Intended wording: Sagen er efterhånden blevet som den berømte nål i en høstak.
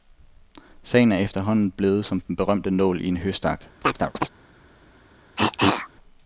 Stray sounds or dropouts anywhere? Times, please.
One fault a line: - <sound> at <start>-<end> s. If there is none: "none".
- chirp at 3.8-4.3 s
- cough at 5.4-5.9 s